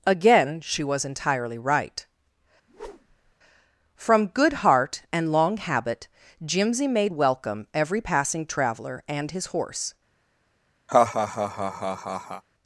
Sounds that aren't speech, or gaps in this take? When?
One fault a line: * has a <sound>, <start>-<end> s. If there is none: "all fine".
* has a whoosh, 2.7-3.4 s
* has a laugh, 10.9-12.4 s